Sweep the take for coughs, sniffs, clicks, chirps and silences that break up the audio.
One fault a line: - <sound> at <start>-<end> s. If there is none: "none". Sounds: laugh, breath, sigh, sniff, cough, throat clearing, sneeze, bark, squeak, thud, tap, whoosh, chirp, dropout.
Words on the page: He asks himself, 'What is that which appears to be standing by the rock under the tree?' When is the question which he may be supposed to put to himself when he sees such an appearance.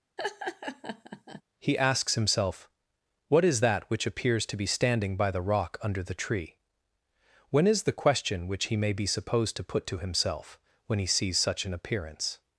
- laugh at 0.2-1.4 s